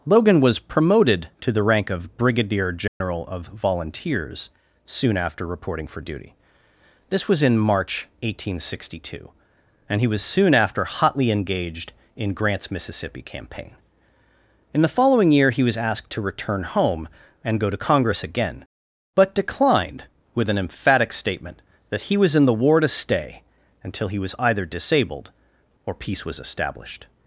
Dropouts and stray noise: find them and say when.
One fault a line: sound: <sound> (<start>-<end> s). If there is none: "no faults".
sound: dropout (2.9-3.0 s)